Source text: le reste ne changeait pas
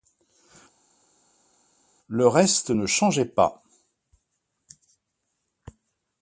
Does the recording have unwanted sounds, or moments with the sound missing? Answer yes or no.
no